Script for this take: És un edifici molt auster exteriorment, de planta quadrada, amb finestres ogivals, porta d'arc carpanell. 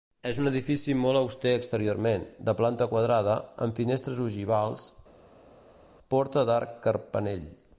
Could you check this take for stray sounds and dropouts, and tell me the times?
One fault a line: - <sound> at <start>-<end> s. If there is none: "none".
none